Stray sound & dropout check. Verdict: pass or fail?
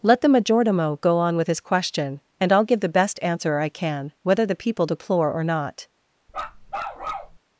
fail